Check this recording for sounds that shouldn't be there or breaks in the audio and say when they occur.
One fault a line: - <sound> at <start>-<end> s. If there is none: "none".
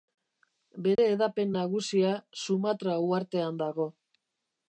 - dropout at 1.0-1.0 s